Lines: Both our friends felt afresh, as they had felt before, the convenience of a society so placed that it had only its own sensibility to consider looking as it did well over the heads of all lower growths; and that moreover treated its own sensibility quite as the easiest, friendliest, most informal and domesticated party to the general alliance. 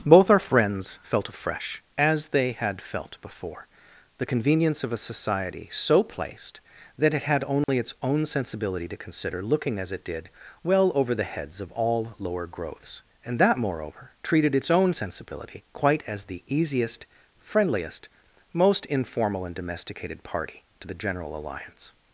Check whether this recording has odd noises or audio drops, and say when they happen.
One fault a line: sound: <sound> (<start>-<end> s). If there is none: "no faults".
sound: dropout (7.6-7.7 s)